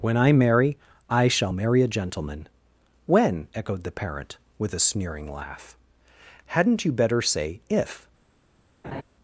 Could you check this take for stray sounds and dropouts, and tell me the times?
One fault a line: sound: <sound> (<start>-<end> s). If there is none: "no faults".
sound: laugh (8.8-9.0 s)